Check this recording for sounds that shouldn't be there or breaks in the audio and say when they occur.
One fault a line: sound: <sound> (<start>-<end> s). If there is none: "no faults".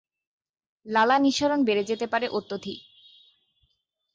no faults